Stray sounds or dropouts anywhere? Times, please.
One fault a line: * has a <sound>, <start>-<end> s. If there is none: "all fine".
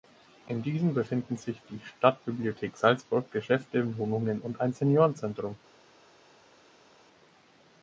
all fine